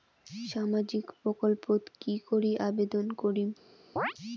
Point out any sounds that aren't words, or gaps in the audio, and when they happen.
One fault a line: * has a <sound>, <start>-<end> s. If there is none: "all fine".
* has a chirp, 4.0-4.1 s